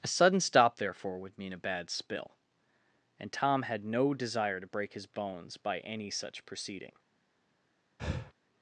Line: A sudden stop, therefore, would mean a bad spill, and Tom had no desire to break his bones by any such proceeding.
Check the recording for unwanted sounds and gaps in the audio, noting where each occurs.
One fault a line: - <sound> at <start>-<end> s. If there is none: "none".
- breath at 8.0-8.3 s